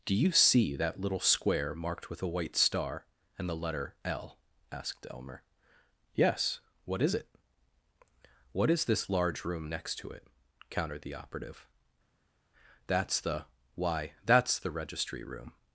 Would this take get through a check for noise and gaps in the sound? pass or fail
pass